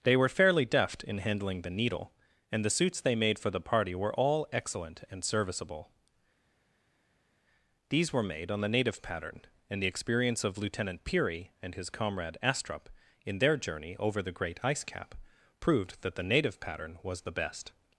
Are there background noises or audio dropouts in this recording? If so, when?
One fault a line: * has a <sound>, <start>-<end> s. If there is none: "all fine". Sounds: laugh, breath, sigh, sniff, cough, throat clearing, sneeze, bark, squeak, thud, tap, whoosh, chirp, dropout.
all fine